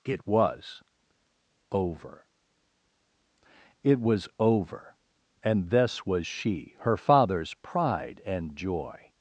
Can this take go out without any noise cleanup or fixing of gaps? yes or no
yes